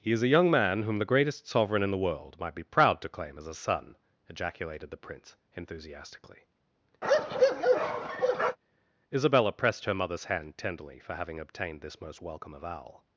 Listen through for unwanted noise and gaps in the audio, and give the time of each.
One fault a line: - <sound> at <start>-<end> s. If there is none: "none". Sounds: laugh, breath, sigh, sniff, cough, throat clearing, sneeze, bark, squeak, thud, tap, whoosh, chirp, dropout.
- bark at 7.0-8.6 s